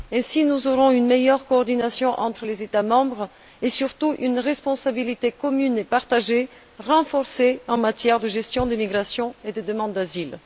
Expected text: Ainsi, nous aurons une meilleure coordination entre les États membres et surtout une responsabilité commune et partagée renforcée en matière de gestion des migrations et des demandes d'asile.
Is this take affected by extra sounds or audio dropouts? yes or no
no